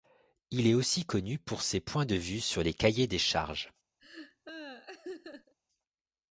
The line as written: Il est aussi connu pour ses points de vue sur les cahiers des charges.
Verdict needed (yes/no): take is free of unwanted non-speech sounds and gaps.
no